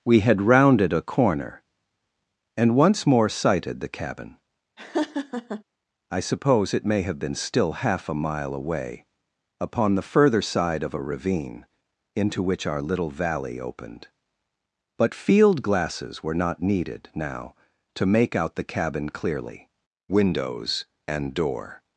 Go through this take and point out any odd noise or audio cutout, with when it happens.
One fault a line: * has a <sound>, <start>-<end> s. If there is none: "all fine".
* has a laugh, 4.8-5.6 s